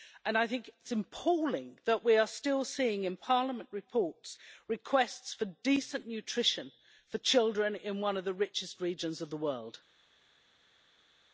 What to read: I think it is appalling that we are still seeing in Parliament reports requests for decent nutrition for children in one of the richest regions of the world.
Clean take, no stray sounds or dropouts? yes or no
yes